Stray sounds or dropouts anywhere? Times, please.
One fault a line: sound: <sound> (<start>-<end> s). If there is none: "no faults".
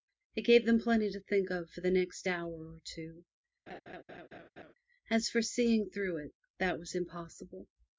sound: laugh (3.7-4.7 s)